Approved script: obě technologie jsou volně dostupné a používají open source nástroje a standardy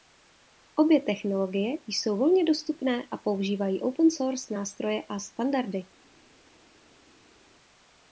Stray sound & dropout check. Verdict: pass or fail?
pass